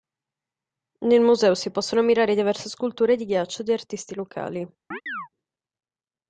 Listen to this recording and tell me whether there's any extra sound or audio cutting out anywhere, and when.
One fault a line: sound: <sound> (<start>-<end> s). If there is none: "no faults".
sound: chirp (4.9-5.3 s)